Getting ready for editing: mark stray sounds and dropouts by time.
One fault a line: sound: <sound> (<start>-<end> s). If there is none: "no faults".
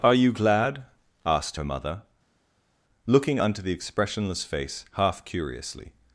no faults